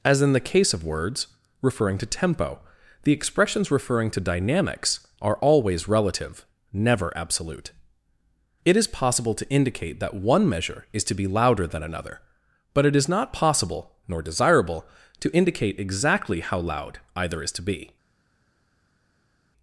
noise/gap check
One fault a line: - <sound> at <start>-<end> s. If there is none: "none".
none